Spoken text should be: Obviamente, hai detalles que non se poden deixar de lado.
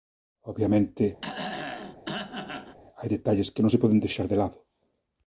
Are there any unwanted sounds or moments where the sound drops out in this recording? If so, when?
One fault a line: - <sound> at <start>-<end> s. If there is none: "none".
- throat clearing at 1.2-2.8 s